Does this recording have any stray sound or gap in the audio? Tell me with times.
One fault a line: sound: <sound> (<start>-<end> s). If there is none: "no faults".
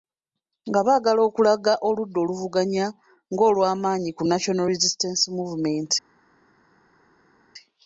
no faults